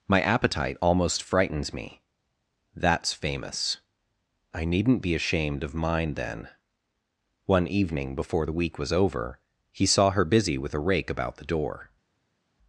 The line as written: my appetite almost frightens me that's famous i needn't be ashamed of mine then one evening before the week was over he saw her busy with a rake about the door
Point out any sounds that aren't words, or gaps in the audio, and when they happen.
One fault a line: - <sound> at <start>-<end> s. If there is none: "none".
none